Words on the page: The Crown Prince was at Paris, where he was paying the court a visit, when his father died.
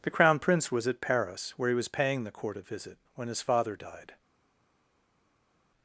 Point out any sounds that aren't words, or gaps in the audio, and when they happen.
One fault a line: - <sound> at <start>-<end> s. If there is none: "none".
none